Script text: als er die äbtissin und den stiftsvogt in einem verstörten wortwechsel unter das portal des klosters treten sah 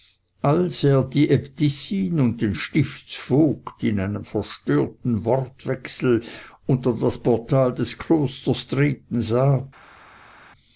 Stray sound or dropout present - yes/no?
no